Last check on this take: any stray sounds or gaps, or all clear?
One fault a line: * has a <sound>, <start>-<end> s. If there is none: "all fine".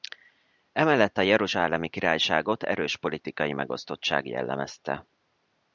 all fine